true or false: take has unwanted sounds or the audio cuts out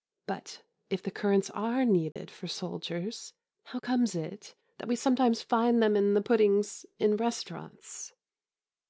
true